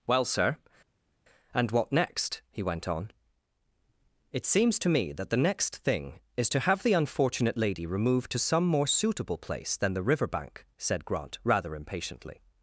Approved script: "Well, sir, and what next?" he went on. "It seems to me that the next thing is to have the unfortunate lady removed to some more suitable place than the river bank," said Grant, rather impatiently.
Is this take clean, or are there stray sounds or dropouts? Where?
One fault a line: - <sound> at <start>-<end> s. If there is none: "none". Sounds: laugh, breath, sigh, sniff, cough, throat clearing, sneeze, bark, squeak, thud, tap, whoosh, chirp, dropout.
none